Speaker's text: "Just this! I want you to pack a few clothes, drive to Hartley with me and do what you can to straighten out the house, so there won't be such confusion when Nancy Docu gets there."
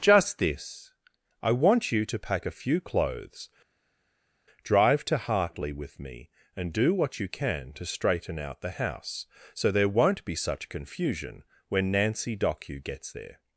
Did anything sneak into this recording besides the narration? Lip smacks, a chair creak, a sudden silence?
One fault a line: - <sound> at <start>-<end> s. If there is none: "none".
none